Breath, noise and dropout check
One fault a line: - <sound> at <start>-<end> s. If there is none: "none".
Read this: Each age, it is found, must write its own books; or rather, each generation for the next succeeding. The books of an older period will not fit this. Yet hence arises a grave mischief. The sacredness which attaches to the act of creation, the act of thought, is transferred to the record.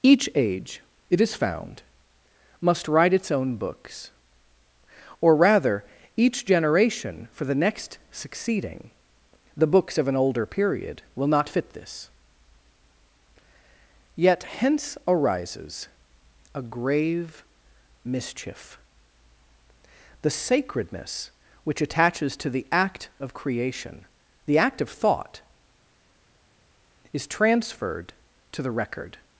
none